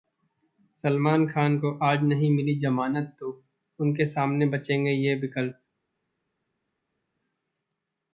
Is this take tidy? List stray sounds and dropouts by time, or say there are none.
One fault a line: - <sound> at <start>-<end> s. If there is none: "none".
none